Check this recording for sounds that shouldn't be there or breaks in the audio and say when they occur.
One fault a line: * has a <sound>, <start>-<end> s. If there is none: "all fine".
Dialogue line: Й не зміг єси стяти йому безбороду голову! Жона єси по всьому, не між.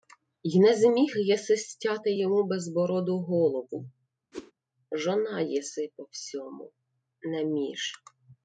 * has a whoosh, 4.3-4.5 s